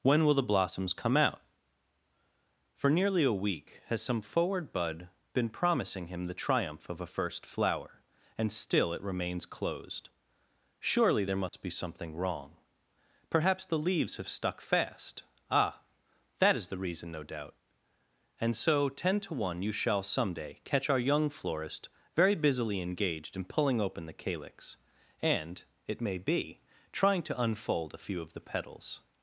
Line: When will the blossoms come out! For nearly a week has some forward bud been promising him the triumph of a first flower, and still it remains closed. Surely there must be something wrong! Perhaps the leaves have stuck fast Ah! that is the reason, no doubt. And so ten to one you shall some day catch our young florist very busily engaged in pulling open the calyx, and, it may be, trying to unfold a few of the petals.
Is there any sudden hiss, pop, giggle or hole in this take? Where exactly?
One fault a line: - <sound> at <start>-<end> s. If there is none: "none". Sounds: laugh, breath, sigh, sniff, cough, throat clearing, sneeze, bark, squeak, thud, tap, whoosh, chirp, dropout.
- dropout at 11.5-11.5 s